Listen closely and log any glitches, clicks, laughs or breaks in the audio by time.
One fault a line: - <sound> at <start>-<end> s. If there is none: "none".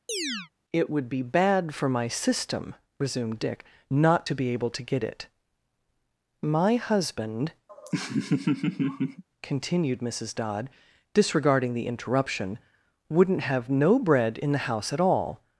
- chirp at 0.1-0.5 s
- laugh at 7.7-9.2 s